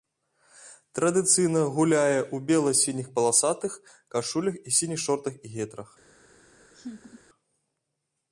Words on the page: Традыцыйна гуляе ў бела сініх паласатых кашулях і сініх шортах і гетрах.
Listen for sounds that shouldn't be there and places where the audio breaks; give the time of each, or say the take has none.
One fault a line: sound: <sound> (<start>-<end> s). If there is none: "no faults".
sound: laugh (6.7-7.2 s)